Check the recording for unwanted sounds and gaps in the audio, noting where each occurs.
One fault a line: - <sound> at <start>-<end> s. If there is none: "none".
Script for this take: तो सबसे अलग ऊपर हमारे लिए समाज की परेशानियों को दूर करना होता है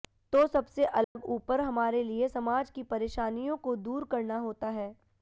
- dropout at 1.0-1.2 s